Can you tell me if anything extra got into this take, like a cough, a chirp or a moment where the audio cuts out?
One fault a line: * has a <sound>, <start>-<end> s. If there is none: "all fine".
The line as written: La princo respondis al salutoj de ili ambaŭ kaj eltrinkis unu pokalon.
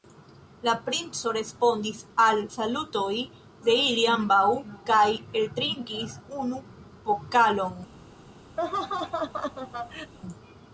* has a laugh, 8.6-10.1 s